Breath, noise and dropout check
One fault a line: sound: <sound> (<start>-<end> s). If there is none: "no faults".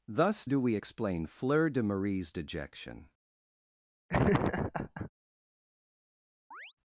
sound: laugh (4.1-5.1 s)
sound: chirp (6.5-6.7 s)